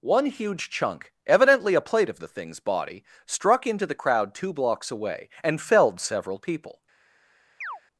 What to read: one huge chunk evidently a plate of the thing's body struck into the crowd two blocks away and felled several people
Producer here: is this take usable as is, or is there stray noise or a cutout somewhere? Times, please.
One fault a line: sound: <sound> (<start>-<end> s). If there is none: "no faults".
sound: chirp (7.6-7.8 s)